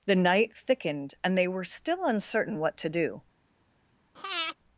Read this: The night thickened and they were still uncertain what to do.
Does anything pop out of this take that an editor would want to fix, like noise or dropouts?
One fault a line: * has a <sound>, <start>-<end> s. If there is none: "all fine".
* has a breath, 4.2-4.6 s